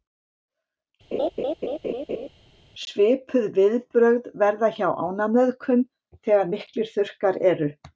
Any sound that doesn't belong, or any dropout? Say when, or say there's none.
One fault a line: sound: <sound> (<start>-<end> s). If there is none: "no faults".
sound: laugh (1.1-2.3 s)